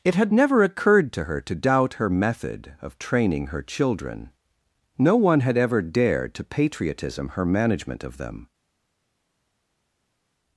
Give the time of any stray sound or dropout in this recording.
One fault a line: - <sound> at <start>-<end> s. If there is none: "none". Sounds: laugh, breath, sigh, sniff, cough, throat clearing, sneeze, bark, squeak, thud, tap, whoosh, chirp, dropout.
none